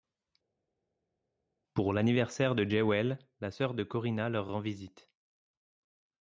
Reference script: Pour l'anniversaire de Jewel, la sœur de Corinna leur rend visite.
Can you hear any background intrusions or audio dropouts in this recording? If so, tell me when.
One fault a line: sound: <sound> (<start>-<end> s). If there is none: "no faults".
no faults